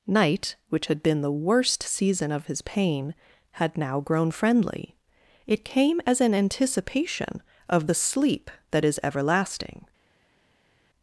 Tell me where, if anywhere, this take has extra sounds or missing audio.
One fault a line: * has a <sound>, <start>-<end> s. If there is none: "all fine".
all fine